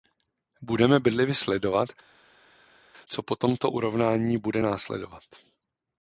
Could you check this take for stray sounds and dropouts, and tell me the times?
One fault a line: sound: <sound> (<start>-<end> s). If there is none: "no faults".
no faults